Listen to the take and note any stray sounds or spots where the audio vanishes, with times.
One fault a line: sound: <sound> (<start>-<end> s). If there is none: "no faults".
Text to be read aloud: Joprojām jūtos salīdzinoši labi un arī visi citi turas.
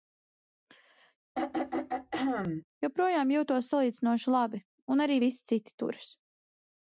sound: throat clearing (1.4-2.7 s)